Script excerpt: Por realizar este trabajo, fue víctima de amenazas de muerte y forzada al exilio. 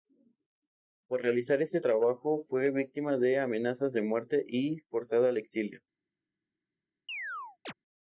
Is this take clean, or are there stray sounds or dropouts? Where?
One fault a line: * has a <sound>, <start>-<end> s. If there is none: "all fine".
* has a chirp, 7.1-7.7 s